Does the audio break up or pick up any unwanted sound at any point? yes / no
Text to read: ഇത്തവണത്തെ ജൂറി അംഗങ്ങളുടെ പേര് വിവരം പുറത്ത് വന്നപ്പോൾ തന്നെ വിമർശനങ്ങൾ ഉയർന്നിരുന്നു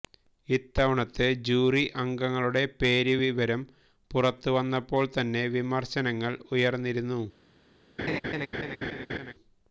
yes